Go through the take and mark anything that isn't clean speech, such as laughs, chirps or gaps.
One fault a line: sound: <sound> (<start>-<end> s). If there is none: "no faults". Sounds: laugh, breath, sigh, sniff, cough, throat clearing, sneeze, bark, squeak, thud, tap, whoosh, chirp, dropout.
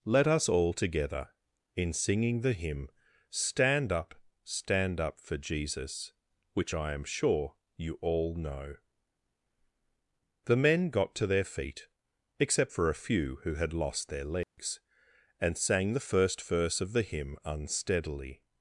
sound: dropout (14.4-14.6 s)